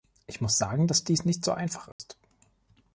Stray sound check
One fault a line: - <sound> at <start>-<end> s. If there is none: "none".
- dropout at 1.9-2.0 s